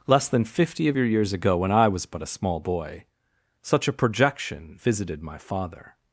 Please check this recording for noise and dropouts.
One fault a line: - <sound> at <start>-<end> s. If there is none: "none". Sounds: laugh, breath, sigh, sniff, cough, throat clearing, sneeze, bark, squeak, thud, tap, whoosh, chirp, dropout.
none